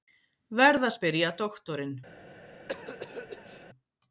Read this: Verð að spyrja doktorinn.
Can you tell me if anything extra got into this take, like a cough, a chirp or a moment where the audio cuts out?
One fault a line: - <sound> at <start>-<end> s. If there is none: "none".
- cough at 2.7-3.7 s